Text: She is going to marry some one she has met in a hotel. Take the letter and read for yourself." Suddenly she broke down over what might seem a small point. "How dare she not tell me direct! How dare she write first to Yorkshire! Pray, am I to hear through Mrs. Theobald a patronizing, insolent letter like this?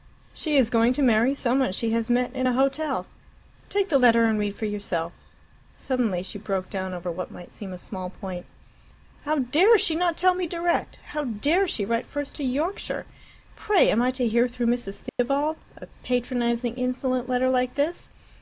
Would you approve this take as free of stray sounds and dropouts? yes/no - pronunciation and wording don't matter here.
no